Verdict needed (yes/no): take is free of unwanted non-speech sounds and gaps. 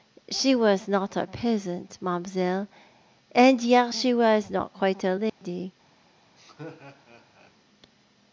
no